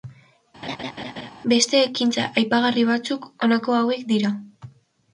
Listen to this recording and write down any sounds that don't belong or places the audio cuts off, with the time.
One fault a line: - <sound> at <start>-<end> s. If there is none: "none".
- laugh at 0.6-1.3 s